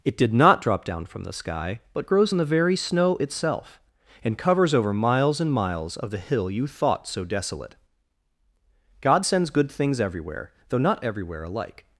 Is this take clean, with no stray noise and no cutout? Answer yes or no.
yes